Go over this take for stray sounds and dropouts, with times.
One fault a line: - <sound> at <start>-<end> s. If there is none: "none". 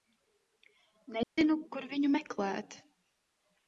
- dropout at 1.2-1.4 s